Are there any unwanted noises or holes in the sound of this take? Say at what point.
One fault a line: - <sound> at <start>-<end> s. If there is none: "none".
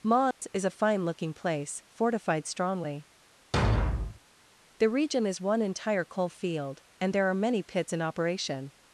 - dropout at 0.3-0.4 s
- thud at 3.5-4.2 s